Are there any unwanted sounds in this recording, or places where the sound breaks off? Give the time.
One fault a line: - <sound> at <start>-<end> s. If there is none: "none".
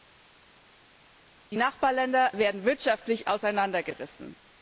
none